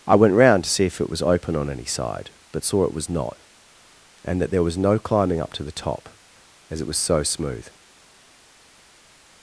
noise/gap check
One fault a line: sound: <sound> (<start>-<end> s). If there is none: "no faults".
no faults